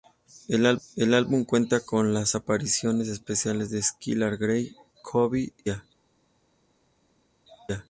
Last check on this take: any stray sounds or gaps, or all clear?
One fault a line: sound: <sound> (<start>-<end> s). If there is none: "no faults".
no faults